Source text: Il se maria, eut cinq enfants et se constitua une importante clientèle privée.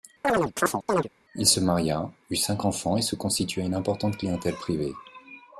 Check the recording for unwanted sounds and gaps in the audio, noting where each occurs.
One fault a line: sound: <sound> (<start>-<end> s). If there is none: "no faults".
sound: chirp (0.2-1.1 s)